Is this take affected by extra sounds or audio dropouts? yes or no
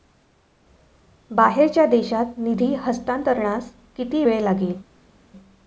no